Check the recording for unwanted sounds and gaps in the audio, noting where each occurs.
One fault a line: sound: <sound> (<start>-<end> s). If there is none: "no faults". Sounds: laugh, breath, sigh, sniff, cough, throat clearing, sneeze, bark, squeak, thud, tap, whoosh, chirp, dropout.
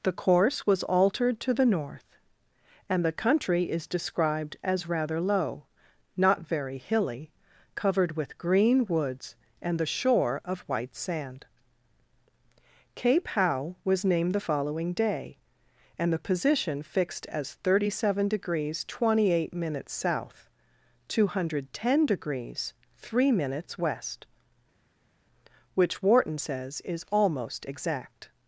no faults